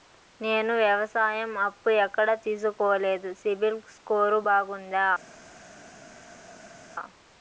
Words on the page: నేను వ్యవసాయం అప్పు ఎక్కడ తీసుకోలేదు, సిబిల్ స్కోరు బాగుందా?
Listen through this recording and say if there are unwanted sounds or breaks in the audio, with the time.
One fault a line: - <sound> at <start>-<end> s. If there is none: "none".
none